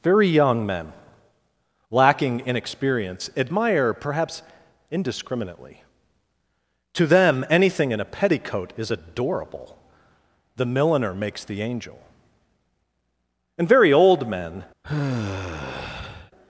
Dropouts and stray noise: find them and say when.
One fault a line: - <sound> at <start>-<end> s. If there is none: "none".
- sigh at 14.8-16.3 s